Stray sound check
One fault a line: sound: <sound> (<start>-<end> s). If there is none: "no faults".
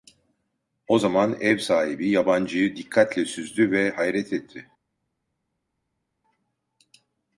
no faults